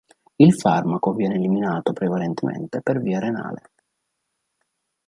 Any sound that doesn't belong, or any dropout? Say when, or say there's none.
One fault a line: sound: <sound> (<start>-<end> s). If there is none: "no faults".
no faults